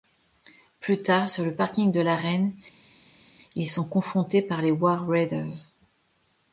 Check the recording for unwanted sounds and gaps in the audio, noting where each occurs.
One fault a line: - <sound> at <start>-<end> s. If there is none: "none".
none